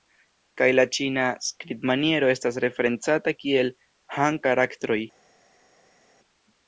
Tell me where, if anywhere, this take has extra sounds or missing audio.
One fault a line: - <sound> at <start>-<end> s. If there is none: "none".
none